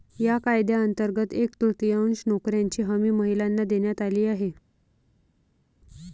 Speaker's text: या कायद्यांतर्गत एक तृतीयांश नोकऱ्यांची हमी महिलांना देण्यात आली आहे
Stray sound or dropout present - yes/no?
no